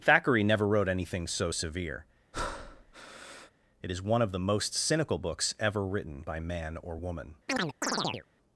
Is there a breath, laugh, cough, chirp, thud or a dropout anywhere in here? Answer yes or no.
yes